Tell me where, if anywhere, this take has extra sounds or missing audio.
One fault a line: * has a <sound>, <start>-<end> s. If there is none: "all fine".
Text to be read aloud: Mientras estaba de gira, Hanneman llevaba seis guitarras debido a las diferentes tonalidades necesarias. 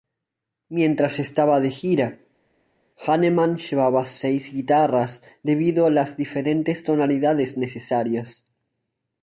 all fine